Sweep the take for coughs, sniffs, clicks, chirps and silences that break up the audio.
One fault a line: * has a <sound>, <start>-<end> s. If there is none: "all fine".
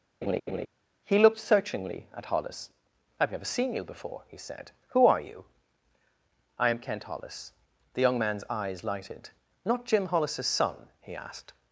* has a laugh, 0.2-0.7 s